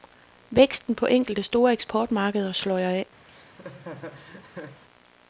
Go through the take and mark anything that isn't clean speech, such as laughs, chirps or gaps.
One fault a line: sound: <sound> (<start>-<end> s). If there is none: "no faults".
sound: laugh (3.3-4.8 s)